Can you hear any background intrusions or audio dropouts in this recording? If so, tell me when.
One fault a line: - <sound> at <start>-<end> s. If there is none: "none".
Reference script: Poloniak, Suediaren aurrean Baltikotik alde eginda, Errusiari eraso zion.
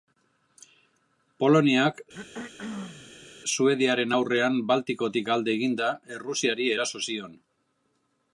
- throat clearing at 2.1-3.3 s